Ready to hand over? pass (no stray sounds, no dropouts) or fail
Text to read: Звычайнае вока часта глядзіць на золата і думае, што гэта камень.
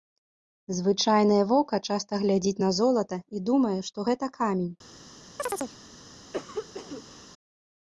fail